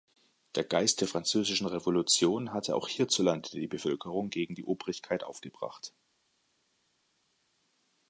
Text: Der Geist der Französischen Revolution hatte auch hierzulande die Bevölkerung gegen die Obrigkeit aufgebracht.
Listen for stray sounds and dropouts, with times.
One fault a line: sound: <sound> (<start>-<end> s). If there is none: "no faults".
no faults